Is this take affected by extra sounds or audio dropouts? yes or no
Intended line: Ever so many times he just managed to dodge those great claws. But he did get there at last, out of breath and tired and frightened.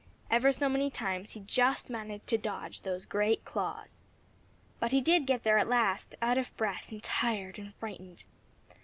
no